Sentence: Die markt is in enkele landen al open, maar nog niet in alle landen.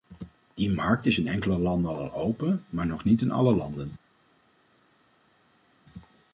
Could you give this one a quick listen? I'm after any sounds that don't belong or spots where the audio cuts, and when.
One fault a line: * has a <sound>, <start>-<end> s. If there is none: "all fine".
all fine